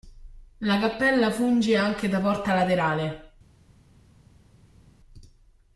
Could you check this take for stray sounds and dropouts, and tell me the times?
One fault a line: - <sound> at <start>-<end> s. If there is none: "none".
none